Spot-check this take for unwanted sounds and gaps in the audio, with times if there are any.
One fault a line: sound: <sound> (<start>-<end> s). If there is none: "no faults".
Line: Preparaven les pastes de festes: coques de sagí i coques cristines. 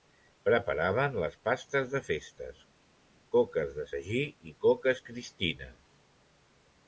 no faults